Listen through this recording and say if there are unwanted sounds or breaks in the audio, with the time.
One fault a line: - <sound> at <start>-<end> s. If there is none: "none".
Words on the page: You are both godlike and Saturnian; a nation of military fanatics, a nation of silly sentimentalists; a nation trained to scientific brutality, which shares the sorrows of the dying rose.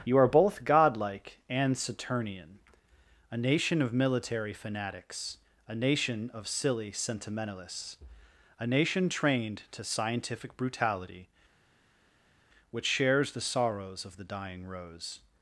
none